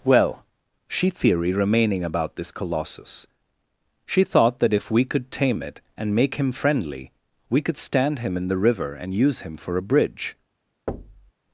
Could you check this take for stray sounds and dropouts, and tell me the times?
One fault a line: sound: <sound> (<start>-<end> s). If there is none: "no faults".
sound: thud (10.9-11.3 s)